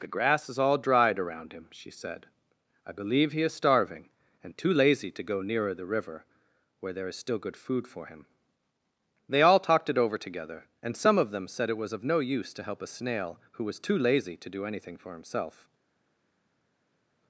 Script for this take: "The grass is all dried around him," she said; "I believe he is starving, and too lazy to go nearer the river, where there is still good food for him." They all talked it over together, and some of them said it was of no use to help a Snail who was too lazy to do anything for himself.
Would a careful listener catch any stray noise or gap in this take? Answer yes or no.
no